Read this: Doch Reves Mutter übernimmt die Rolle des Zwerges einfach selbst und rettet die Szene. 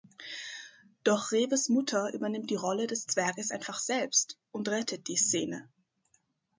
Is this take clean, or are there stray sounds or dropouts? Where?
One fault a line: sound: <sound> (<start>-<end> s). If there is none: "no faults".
no faults